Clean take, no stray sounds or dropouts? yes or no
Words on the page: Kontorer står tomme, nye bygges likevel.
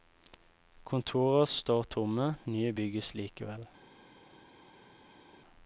yes